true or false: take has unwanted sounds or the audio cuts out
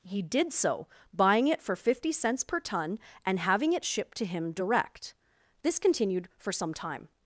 false